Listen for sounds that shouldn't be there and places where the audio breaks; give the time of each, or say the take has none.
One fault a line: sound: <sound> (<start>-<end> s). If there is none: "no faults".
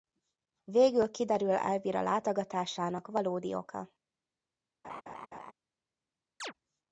sound: laugh (4.8-5.5 s)
sound: chirp (6.4-6.5 s)